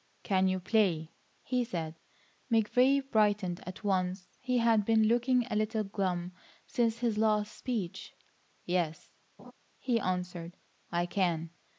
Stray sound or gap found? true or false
true